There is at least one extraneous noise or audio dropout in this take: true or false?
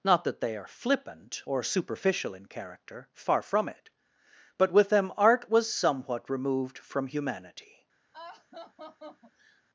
true